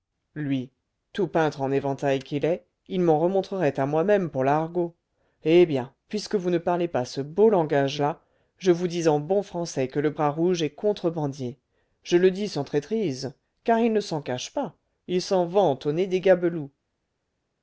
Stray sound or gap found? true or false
false